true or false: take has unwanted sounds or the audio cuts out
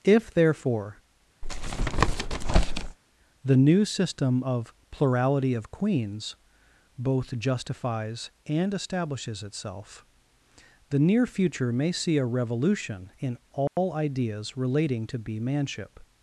true